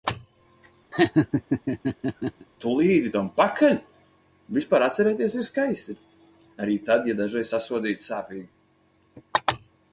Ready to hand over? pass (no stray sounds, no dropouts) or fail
fail